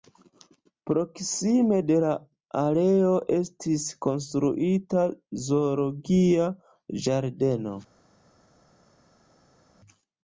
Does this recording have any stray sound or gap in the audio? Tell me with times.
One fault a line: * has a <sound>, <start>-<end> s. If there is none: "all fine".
all fine